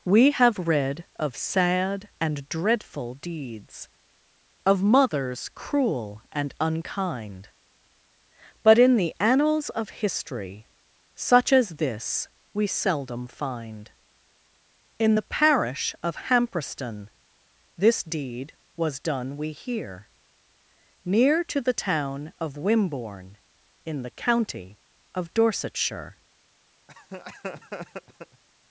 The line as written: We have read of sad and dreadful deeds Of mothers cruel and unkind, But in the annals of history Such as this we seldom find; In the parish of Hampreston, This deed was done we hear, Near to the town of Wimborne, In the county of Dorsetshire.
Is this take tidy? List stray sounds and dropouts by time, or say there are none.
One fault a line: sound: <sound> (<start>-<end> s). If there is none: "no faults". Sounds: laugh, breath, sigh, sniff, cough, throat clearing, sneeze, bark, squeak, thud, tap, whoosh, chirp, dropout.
sound: laugh (26.9-28.4 s)